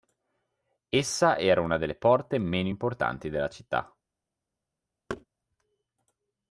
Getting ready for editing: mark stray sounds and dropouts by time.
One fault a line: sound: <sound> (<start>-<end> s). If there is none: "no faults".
sound: thud (5.1-5.3 s)